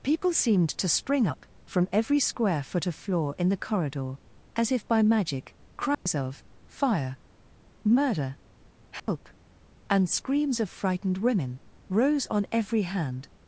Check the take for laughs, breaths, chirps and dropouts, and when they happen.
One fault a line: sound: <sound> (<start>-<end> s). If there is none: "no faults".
sound: dropout (5.9-6.1 s)
sound: dropout (9.0-9.1 s)